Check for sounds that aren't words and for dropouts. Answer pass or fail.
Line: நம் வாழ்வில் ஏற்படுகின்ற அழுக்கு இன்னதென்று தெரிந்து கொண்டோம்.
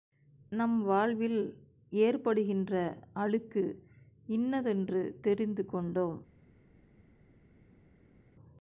pass